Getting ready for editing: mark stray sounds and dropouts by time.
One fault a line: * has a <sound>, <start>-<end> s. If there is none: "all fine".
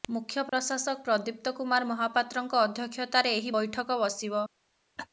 * has a dropout, 0.5-0.5 s
* has a laugh, 5.0-5.1 s